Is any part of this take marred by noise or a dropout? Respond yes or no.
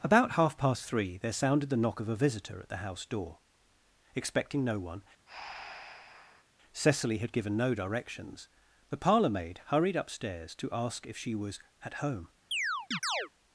yes